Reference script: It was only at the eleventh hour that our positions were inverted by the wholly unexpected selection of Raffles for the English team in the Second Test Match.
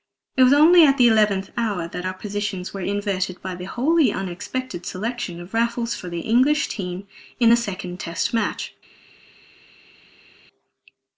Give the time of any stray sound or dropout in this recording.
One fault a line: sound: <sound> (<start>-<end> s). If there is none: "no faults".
no faults